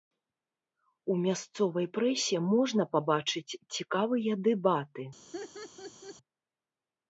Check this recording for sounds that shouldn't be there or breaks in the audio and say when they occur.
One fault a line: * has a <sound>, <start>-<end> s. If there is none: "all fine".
* has a laugh, 5.3-6.2 s